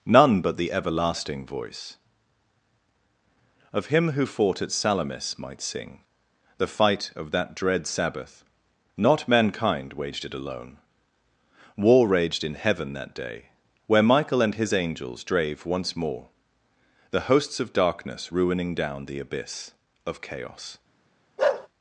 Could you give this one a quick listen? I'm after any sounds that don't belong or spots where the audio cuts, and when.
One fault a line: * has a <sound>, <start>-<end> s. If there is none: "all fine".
* has a bark, 21.4-21.7 s